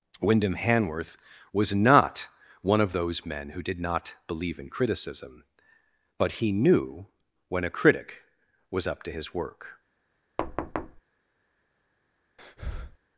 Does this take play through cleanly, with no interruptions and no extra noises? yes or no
no